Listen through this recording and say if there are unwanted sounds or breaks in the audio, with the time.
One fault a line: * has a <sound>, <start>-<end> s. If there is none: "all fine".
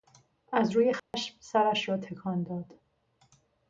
* has a dropout, 1.0-1.1 s